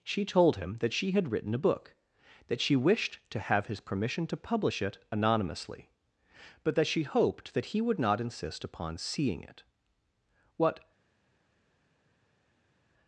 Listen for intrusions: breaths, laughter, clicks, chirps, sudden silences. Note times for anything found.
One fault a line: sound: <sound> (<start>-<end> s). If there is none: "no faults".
no faults